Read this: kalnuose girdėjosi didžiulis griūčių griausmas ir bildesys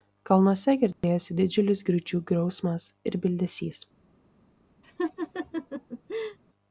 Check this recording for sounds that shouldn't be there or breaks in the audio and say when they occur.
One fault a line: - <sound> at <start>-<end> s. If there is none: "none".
- dropout at 0.9-1.0 s
- laugh at 4.8-6.4 s